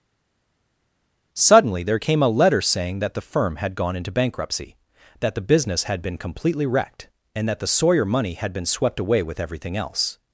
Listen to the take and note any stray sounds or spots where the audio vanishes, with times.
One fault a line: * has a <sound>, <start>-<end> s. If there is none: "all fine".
all fine